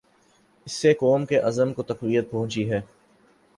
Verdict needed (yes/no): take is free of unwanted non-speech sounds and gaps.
yes